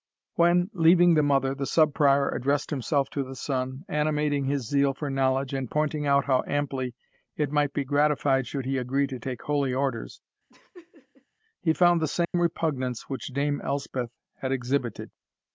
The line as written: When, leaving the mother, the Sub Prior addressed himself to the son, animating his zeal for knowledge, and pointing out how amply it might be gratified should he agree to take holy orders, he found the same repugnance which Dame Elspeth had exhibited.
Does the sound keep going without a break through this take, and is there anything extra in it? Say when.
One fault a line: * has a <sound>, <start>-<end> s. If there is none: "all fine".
* has a laugh, 10.5-11.3 s
* has a dropout, 12.2-12.3 s